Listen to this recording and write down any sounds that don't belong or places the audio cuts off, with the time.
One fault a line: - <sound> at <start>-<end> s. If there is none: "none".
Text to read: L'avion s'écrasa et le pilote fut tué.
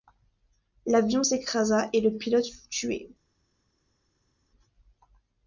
none